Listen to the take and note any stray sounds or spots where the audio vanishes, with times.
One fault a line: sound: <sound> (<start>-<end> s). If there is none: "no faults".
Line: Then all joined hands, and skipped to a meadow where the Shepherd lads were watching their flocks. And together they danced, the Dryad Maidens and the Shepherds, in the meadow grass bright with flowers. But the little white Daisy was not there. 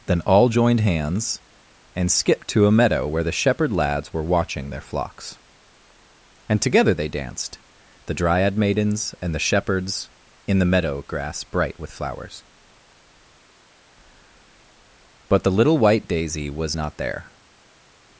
no faults